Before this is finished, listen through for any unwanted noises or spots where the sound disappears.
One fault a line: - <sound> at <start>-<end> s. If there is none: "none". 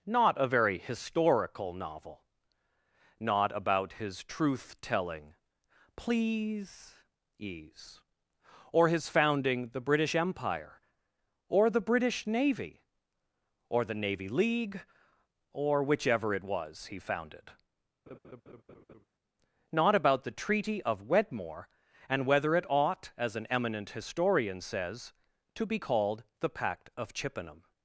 - laugh at 18.1-19.1 s